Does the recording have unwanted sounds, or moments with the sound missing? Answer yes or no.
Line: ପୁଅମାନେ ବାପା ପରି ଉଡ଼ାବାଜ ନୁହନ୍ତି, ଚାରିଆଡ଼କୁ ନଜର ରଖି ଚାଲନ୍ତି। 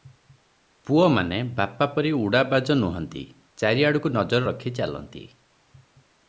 no